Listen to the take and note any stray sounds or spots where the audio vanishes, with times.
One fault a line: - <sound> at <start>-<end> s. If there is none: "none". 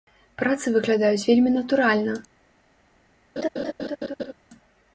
- laugh at 3.4-4.3 s